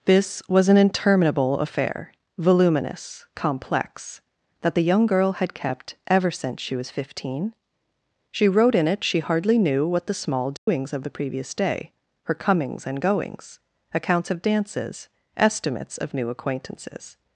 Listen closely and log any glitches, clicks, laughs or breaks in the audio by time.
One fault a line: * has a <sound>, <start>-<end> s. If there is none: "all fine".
* has a dropout, 10.6-10.7 s